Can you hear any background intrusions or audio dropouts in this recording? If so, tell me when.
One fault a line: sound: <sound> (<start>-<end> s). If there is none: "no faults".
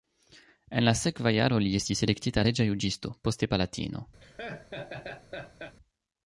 sound: laugh (4.2-5.8 s)